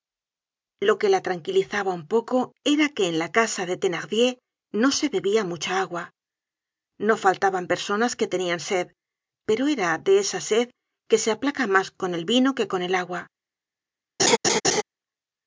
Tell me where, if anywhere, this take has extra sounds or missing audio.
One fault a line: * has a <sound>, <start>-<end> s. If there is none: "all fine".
* has a laugh, 14.2-14.8 s